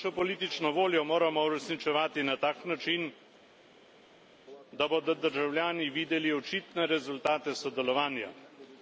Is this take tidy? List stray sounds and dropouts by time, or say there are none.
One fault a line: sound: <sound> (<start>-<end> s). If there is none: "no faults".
no faults